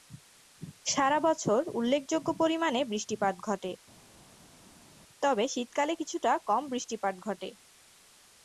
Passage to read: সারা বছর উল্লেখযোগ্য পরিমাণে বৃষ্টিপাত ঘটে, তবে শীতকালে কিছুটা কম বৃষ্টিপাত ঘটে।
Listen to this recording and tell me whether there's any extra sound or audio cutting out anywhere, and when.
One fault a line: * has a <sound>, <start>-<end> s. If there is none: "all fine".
all fine